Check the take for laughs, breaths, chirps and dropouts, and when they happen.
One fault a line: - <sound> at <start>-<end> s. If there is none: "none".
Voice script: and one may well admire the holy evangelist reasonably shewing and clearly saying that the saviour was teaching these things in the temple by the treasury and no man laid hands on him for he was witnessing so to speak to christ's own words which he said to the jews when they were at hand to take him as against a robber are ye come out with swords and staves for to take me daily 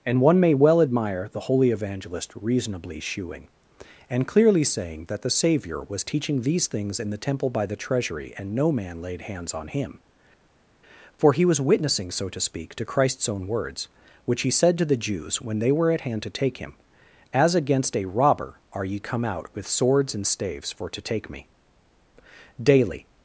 none